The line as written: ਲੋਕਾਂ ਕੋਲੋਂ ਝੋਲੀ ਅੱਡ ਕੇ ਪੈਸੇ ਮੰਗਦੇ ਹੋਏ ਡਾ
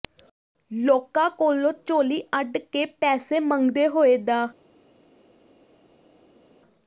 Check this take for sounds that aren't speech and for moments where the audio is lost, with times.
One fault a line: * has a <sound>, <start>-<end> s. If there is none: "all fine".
all fine